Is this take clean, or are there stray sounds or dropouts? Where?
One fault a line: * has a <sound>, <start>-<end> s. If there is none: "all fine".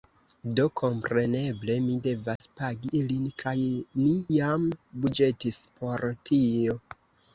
* has a dropout, 2.4-2.4 s